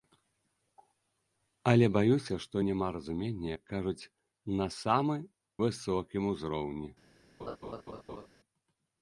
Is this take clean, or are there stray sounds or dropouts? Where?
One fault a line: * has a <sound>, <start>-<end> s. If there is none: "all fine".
* has a laugh, 7.4-8.3 s